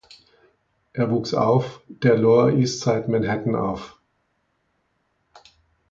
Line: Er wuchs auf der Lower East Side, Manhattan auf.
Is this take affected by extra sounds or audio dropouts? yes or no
no